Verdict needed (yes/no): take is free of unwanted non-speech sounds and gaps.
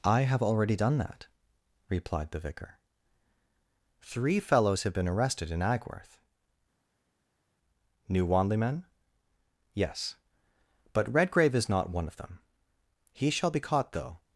yes